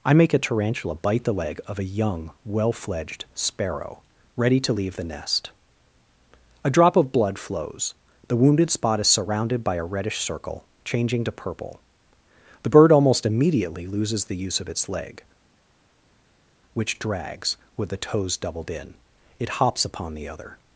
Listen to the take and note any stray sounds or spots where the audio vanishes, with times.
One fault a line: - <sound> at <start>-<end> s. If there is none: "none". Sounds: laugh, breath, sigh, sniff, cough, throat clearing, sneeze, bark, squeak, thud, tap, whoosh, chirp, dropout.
none